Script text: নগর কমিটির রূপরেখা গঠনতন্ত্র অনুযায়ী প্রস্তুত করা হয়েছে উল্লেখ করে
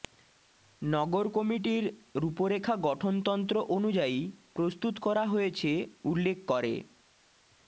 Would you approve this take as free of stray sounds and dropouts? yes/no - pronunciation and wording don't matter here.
yes